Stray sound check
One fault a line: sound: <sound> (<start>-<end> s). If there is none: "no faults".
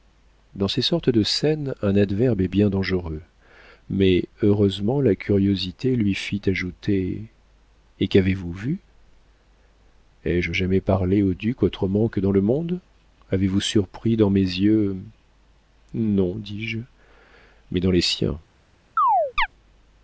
sound: chirp (19.0-19.5 s)